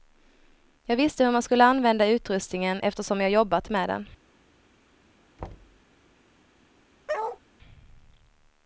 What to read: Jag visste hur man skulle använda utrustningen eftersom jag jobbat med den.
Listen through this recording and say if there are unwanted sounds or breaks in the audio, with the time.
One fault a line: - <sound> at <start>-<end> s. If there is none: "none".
- thud at 5.4-5.8 s
- bark at 7.1-7.4 s